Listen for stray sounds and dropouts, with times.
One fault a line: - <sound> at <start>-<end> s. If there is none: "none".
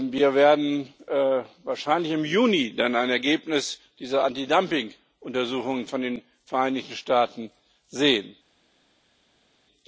none